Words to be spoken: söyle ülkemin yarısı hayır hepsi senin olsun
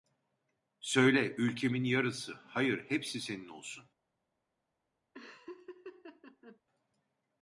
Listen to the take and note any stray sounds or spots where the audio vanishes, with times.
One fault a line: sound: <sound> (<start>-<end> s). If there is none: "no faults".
sound: laugh (5.1-6.6 s)